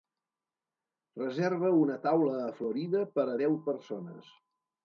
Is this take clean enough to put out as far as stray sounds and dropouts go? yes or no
yes